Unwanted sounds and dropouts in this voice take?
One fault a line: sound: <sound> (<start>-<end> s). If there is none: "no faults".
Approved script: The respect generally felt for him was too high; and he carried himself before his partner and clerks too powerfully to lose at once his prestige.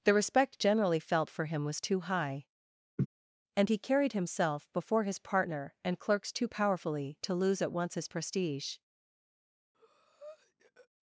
sound: laugh (3.0-3.1 s)
sound: breath (9.7-10.9 s)